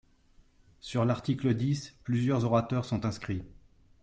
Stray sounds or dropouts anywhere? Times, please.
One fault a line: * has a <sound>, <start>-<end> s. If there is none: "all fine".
all fine